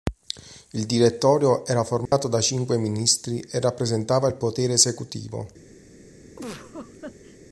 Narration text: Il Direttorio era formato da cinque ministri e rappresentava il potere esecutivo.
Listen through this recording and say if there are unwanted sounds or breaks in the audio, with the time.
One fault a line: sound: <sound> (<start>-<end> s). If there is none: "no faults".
sound: dropout (2.1-2.1 s)
sound: laugh (6.4-7.4 s)